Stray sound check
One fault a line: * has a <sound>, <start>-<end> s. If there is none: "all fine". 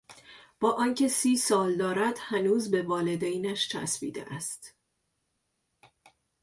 all fine